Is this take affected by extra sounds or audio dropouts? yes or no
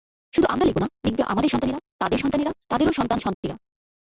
yes